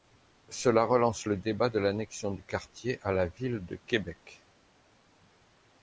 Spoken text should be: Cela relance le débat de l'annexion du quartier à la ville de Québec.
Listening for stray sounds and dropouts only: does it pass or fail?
pass